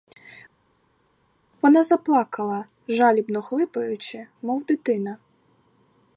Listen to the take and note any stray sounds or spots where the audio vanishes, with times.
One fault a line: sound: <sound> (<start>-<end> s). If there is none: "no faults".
no faults